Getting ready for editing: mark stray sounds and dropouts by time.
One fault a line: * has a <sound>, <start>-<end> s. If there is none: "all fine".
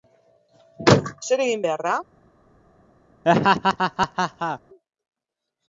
* has a laugh, 3.2-4.6 s